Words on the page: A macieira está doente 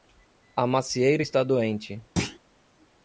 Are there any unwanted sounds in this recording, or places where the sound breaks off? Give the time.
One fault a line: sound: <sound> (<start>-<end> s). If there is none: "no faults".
sound: thud (2.2-2.4 s)